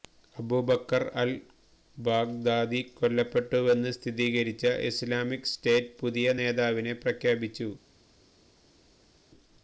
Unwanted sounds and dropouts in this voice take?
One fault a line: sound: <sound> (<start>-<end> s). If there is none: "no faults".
no faults